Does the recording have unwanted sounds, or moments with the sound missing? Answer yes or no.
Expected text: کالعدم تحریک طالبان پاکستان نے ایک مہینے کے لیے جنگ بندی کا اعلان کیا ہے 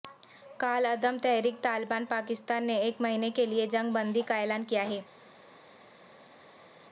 no